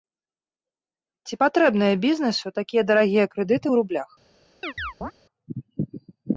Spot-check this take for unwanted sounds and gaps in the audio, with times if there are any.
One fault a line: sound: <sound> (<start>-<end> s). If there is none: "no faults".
sound: chirp (4.6-5.1 s)